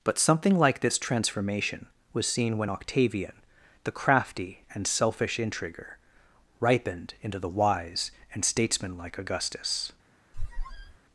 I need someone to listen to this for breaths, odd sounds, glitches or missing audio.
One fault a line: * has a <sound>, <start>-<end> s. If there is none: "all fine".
* has a squeak, 10.3-11.0 s